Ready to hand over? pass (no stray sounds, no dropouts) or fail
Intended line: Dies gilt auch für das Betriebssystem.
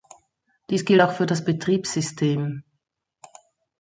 pass